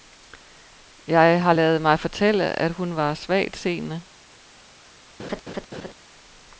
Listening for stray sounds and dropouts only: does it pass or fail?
fail